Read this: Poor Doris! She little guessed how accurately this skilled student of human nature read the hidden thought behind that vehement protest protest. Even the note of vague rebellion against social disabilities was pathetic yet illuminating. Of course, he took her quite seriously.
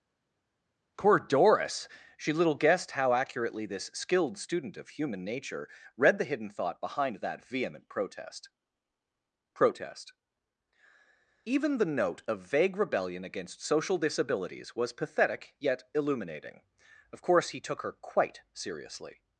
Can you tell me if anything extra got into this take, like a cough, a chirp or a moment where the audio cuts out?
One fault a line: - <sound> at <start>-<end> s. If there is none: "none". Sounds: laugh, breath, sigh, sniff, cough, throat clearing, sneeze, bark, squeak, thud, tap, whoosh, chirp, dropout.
none